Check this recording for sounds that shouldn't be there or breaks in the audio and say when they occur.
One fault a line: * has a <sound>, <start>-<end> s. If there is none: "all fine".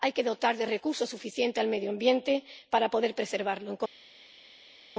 all fine